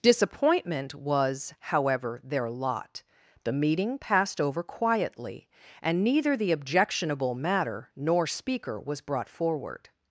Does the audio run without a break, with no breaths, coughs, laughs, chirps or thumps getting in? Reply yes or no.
yes